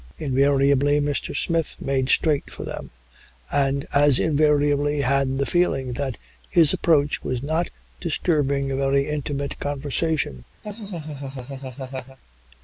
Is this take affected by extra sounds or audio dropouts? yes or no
yes